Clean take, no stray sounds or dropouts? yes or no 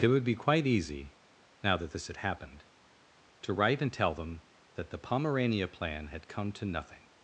yes